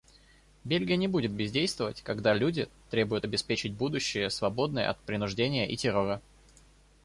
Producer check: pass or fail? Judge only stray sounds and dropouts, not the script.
pass